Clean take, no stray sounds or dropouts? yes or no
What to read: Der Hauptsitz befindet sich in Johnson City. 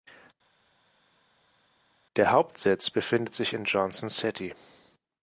yes